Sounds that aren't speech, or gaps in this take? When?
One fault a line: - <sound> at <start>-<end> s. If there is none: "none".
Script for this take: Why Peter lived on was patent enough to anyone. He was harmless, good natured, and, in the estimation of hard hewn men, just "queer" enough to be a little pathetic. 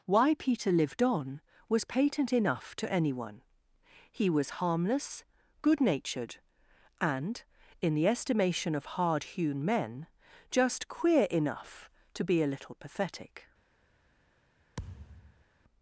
- thud at 14.8-15.4 s